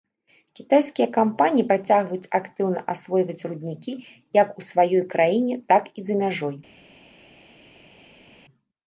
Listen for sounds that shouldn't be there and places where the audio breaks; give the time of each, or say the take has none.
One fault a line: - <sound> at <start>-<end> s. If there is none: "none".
none